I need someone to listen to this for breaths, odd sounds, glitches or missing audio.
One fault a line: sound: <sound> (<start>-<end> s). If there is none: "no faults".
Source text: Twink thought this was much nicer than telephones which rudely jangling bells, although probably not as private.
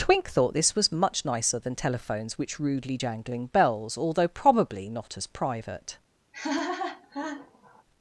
sound: laugh (6.3-7.8 s)